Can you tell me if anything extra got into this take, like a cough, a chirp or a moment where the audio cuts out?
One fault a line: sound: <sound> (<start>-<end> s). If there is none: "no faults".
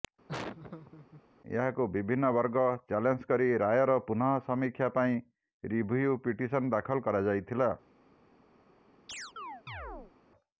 sound: laugh (0.3-1.2 s)
sound: chirp (9.1-10.1 s)